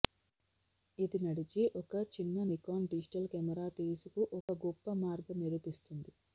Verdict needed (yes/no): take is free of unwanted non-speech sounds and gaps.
no